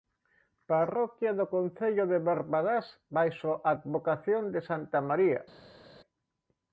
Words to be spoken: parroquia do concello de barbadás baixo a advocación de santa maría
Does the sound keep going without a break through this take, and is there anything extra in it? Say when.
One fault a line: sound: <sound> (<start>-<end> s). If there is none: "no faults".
no faults